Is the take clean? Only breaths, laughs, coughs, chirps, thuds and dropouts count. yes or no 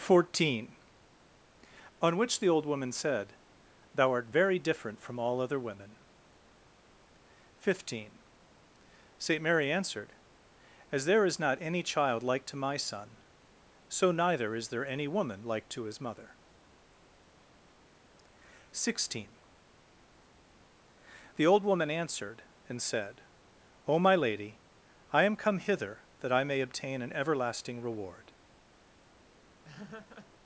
no